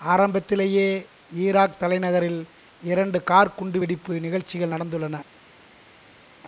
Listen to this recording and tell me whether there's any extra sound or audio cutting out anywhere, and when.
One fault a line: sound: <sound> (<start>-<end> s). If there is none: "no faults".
no faults